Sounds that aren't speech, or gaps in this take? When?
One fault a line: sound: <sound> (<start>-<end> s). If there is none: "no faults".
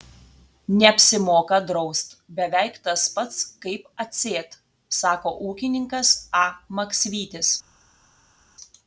no faults